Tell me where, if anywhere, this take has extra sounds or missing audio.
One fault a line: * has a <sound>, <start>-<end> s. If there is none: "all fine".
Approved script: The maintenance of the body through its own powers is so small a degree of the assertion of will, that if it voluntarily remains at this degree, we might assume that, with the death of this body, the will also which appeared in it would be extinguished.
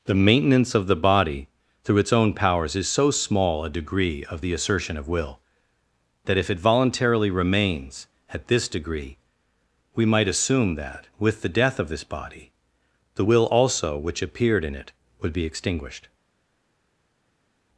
all fine